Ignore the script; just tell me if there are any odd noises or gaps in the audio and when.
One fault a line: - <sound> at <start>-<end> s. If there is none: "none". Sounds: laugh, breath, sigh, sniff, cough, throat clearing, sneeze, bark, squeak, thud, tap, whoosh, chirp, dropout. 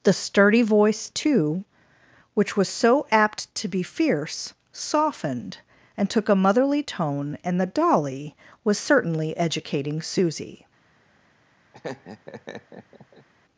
- laugh at 11.7-13.3 s